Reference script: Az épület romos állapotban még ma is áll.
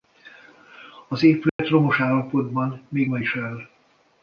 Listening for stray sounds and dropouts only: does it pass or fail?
fail